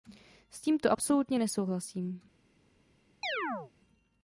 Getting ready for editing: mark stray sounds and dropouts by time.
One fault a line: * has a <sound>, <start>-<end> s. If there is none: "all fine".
* has a chirp, 3.2-3.7 s